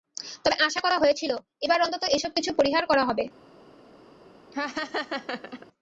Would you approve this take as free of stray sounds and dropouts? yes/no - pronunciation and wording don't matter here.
no